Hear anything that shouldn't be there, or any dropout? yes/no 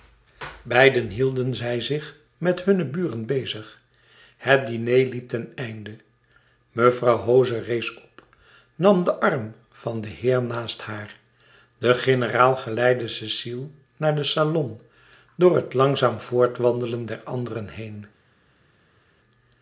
no